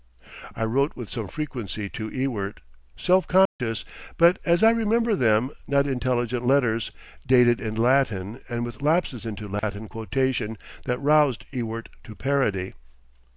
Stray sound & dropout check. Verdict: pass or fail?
fail